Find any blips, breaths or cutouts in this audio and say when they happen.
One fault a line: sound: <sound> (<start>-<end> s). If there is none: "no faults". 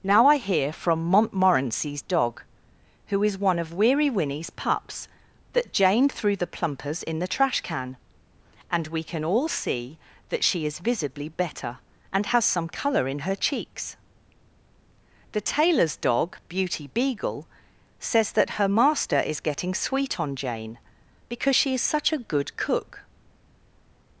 no faults